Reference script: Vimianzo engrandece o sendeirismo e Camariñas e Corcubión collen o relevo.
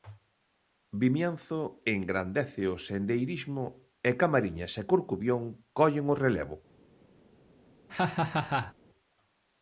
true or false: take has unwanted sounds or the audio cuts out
true